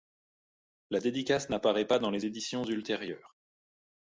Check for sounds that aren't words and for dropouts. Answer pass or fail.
pass